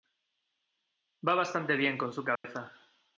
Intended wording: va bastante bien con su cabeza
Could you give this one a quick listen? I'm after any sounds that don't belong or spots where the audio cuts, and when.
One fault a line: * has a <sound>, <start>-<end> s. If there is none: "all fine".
* has a dropout, 2.4-2.4 s